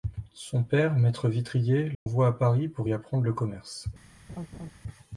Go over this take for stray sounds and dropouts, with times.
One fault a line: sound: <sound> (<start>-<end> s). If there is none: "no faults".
sound: dropout (1.9-2.1 s)
sound: laugh (4.3-4.7 s)